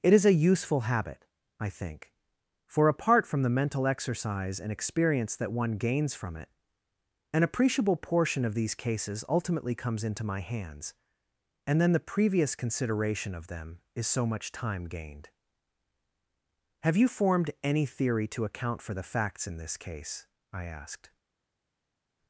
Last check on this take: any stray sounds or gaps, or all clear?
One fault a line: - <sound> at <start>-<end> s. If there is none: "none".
none